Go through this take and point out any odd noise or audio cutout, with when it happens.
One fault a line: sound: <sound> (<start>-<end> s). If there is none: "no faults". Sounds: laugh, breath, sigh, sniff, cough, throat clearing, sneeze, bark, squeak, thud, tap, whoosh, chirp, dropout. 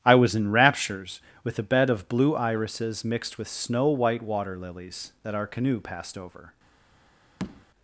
sound: tap (7.4-7.7 s)